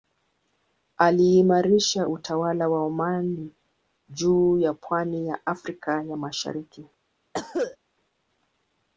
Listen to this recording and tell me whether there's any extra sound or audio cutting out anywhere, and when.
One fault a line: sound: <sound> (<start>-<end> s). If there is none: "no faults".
sound: cough (7.3-7.8 s)